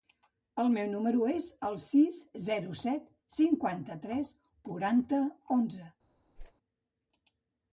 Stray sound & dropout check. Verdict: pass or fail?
fail